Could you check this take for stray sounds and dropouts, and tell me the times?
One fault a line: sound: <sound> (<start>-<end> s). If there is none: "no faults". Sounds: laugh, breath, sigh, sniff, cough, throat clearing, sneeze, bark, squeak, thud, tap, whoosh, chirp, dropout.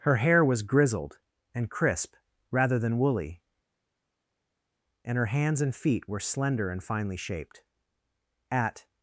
no faults